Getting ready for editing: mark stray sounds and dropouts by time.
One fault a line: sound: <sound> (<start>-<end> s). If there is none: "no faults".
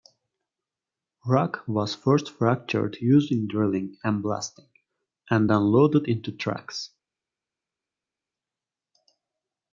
no faults